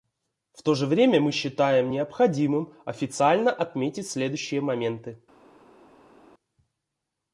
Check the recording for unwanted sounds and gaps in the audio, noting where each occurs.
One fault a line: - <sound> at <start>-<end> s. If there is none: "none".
none